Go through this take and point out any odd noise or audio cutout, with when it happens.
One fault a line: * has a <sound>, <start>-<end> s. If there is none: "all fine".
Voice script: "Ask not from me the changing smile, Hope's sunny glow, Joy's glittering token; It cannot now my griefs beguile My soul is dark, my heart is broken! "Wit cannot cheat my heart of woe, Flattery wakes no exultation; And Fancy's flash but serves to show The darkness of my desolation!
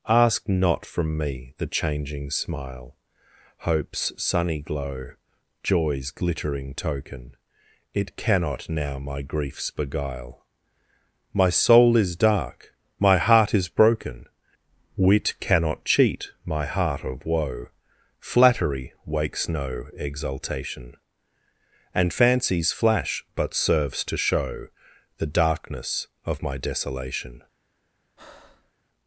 * has a breath, 28.2-28.7 s